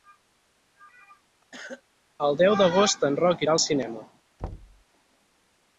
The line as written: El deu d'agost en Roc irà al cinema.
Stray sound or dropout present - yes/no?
yes